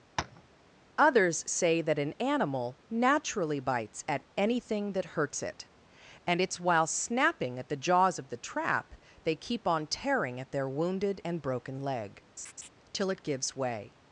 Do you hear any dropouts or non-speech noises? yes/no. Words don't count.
yes